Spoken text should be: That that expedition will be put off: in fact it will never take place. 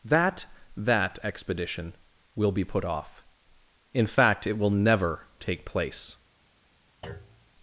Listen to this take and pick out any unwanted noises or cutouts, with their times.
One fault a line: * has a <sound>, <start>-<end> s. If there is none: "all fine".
* has a thud, 7.0-7.5 s